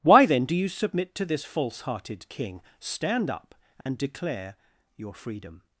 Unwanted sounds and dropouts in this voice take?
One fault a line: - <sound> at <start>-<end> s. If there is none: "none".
- dropout at 3.8-3.9 s